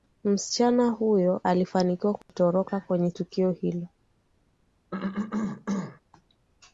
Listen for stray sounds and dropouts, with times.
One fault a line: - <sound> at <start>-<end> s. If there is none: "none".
- dropout at 2.2-2.3 s
- cough at 4.9-6.0 s